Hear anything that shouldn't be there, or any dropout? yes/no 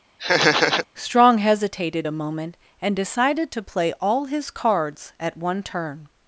yes